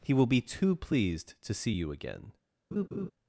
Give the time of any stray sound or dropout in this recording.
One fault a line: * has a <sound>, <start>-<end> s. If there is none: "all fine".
* has a laugh, 2.7-3.1 s